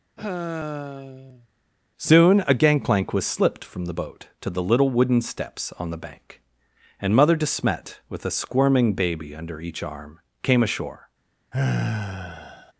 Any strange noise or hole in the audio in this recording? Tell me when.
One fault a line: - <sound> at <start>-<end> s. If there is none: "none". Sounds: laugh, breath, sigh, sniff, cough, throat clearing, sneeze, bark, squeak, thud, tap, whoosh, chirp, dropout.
- sigh at 0.2-1.5 s
- sigh at 11.5-12.7 s